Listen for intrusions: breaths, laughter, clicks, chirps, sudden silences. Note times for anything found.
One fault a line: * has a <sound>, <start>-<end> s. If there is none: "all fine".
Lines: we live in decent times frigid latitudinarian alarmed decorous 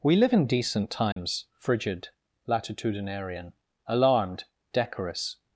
* has a dropout, 1.1-1.2 s